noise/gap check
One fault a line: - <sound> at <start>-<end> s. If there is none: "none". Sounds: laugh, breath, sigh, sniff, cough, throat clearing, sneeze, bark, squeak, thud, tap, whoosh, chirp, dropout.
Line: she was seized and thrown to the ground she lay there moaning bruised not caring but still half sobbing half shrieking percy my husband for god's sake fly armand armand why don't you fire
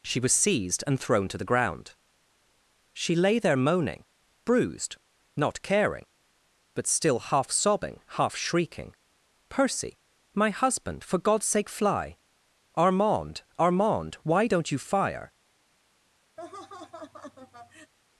- laugh at 16.4-17.9 s